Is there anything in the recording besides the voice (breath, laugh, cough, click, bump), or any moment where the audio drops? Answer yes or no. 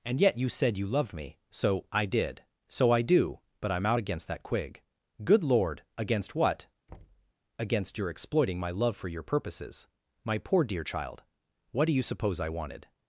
yes